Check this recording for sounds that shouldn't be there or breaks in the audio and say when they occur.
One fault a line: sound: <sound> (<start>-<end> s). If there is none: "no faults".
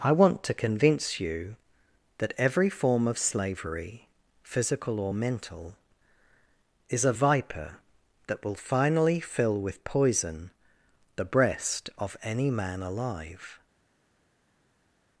no faults